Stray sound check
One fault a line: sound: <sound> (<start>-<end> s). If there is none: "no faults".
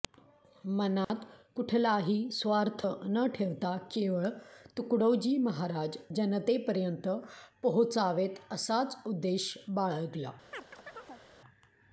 sound: dropout (1.0-1.1 s)
sound: chirp (10.5-11.2 s)